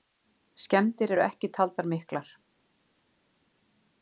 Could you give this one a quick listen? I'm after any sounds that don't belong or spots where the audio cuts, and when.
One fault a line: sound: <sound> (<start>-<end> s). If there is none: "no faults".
no faults